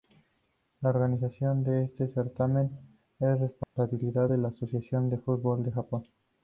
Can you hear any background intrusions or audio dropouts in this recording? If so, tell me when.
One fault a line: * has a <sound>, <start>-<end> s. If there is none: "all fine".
* has a dropout, 3.6-3.8 s